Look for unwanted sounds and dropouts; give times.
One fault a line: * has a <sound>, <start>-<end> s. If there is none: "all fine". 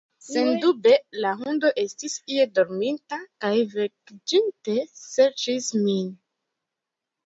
all fine